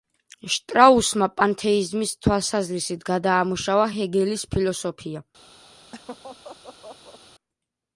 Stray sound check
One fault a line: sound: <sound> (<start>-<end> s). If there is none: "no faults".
sound: laugh (5.9-7.2 s)